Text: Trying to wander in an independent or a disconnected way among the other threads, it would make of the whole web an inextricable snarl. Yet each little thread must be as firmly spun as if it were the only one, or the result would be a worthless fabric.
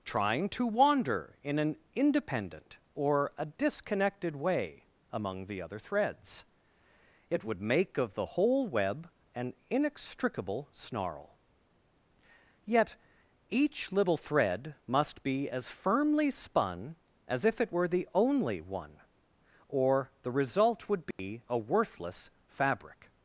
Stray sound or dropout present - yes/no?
yes